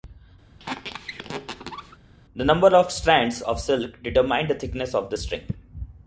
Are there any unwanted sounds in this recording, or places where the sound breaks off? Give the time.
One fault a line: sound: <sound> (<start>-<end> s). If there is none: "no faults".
sound: squeak (0.6-2.0 s)